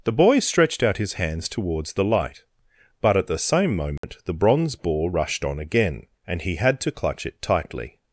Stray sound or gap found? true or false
true